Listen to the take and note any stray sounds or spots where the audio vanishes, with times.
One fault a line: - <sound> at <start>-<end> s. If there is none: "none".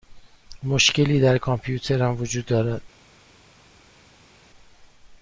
none